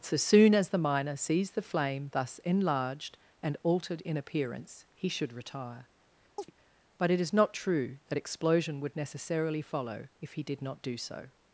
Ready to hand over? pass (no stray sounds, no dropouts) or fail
fail